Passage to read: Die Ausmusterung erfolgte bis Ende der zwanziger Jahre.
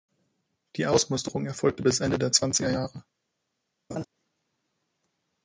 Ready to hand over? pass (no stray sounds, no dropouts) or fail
fail